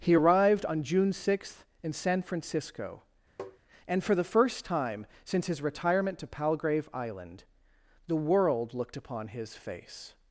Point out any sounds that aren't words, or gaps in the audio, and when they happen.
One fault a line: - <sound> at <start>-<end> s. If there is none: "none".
- tap at 3.4-3.6 s